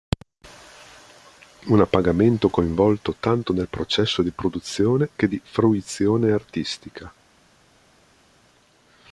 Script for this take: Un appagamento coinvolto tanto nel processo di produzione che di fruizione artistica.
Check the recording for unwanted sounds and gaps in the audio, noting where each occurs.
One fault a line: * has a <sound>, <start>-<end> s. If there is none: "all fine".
all fine